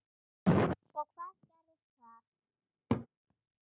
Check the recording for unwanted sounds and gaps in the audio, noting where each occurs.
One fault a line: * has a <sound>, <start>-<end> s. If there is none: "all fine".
* has a laugh, 2.9-3.1 s